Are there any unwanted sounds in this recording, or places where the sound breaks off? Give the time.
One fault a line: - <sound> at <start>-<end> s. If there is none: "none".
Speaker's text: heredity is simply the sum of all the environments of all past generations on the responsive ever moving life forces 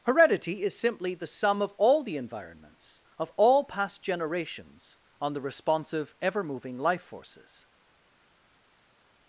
none